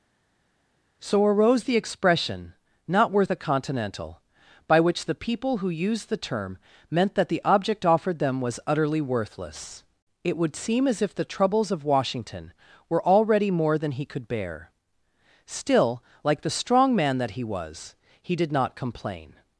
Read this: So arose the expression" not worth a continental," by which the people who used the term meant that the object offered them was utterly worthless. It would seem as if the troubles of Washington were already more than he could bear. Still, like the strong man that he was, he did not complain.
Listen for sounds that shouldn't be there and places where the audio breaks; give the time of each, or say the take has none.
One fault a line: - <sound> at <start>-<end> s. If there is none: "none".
none